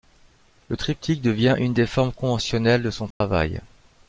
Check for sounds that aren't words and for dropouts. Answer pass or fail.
fail